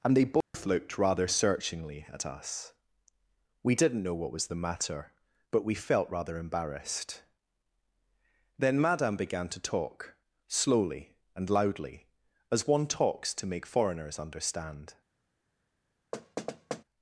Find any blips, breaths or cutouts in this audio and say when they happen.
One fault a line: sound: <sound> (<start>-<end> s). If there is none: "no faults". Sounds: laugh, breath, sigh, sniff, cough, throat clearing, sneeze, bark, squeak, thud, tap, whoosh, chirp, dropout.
sound: dropout (0.4-0.5 s)
sound: thud (16.1-16.8 s)